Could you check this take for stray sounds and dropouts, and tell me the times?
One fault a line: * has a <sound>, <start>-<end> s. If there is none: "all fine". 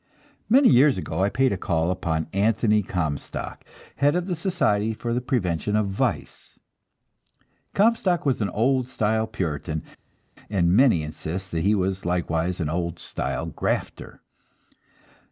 all fine